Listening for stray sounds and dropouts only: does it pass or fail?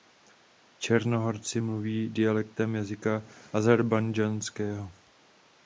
pass